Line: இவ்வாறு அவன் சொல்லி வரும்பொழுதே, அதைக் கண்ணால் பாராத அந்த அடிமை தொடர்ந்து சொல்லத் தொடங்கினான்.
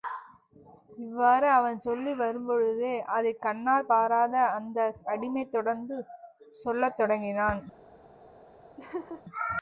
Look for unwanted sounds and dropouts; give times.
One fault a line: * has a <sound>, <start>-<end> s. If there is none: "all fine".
* has a laugh, 8.8-9.2 s